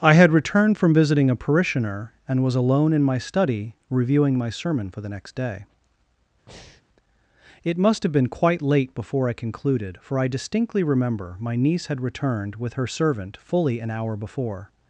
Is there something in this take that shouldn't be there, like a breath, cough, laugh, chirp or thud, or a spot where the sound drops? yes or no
yes